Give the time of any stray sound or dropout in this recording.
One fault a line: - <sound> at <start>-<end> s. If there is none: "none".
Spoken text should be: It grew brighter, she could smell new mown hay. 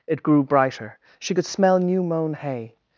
none